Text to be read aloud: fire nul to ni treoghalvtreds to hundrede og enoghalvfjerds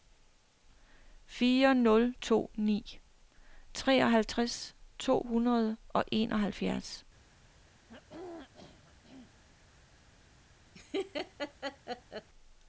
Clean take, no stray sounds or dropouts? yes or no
no